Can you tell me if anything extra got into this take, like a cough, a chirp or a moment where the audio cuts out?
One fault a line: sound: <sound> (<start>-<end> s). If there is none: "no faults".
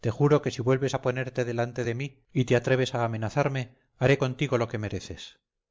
no faults